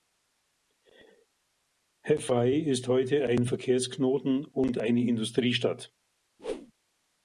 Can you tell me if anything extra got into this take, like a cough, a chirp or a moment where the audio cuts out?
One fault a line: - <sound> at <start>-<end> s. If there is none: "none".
- whoosh at 6.4-6.7 s